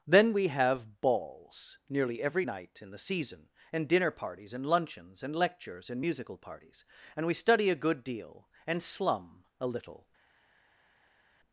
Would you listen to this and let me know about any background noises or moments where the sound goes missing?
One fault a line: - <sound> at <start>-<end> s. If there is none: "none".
none